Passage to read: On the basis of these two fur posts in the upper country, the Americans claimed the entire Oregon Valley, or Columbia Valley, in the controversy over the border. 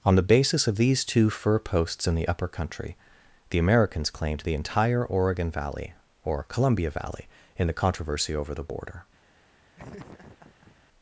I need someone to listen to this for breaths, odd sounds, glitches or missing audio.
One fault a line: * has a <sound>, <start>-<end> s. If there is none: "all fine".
* has a laugh, 9.8-10.8 s